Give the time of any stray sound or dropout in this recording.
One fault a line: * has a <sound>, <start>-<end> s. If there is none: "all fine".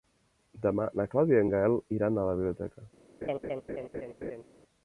* has a laugh, 3.2-4.4 s